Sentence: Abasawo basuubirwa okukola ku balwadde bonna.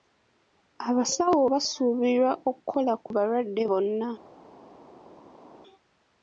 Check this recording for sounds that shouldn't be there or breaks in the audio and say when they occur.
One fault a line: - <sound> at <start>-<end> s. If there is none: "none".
none